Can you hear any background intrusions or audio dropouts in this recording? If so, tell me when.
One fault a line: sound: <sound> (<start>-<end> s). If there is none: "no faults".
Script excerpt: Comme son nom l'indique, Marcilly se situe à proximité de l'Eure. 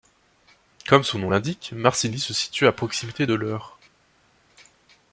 no faults